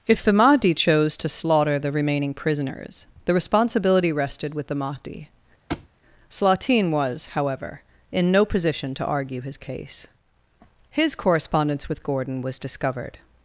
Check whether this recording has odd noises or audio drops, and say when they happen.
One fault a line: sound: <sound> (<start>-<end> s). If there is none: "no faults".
sound: thud (5.7-5.9 s)